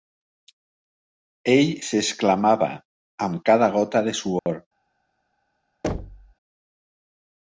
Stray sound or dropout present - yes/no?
yes